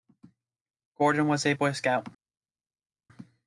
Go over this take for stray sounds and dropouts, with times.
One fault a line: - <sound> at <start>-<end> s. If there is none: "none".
none